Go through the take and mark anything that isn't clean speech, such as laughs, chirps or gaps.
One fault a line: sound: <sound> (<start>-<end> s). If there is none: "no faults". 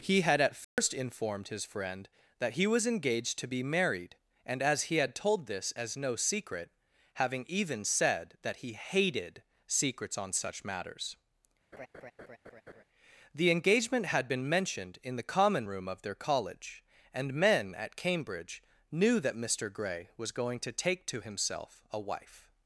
sound: dropout (0.6-0.8 s)
sound: laugh (11.7-12.8 s)